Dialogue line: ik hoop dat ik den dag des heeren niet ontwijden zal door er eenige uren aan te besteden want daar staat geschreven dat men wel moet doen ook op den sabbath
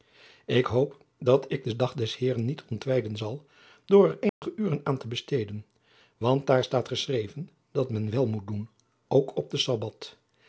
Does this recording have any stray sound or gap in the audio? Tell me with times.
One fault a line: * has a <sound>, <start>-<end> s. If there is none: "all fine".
* has a dropout, 4.3-4.4 s